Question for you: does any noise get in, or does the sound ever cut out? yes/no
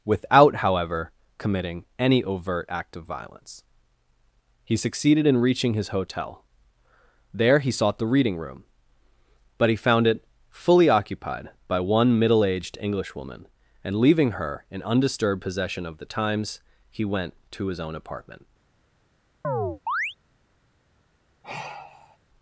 yes